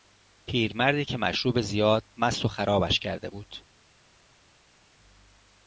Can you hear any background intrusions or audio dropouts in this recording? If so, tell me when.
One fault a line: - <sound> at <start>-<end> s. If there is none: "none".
none